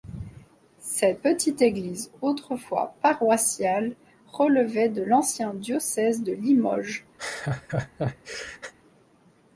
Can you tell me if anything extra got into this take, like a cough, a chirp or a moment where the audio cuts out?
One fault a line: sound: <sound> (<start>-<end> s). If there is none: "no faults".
sound: laugh (7.2-8.7 s)